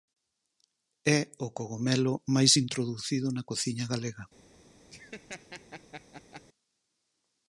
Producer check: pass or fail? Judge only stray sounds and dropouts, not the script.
fail